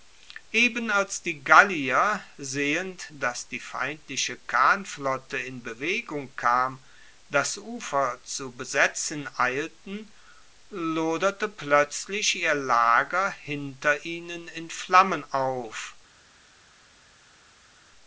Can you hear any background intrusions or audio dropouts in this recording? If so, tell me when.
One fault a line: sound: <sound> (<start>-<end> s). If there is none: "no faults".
no faults